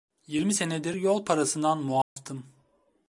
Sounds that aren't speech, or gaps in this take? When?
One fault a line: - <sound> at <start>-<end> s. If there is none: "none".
- dropout at 2.0-2.2 s